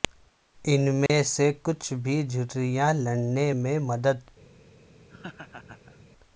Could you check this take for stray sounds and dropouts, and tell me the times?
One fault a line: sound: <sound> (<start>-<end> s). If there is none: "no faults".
sound: dropout (1.1-1.1 s)
sound: laugh (5.1-6.1 s)